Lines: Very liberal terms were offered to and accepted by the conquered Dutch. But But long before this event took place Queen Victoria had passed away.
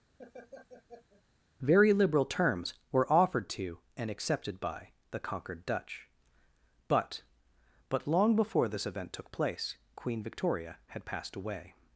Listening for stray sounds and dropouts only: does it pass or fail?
fail